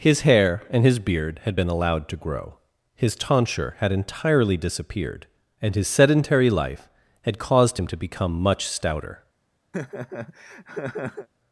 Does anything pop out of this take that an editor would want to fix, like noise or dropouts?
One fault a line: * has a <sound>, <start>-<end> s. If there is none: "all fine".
* has a laugh, 9.7-11.3 s